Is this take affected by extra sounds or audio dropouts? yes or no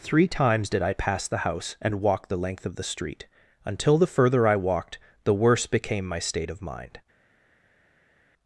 no